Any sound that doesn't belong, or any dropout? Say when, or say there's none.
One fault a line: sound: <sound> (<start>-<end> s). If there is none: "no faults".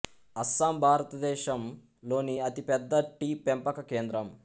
no faults